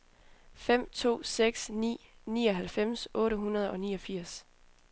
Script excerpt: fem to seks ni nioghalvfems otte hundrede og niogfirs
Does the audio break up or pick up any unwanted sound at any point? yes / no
no